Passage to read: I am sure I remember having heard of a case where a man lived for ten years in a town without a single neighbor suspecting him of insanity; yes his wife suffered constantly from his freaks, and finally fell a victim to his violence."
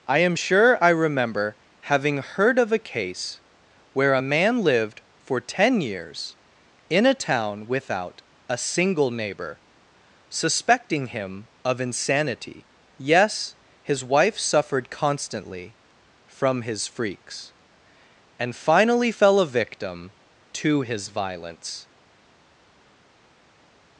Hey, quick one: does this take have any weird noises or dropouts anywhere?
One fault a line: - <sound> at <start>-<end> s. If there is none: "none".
none